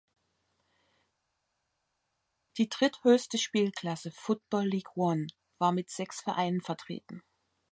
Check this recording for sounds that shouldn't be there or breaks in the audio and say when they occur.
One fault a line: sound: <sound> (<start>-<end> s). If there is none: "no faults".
no faults